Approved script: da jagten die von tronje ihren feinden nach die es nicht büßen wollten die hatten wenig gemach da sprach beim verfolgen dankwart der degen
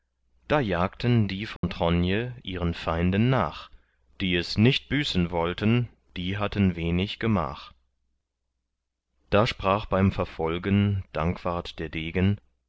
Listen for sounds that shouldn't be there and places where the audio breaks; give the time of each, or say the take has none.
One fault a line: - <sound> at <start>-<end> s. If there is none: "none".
- dropout at 1.6-1.6 s